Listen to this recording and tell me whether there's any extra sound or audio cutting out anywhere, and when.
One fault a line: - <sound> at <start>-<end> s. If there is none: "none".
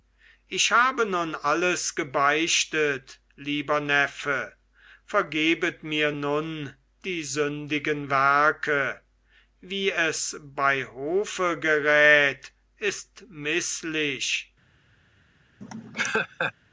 - laugh at 15.6-16.5 s